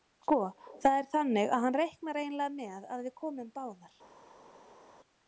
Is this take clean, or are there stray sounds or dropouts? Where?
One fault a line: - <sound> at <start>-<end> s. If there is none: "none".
none